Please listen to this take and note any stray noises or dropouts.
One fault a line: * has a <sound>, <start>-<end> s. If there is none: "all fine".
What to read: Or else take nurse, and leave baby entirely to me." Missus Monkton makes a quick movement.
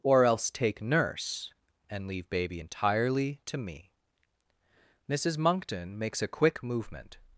all fine